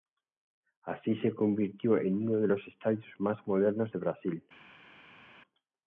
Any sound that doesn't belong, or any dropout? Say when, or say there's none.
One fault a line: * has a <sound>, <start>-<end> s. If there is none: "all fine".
all fine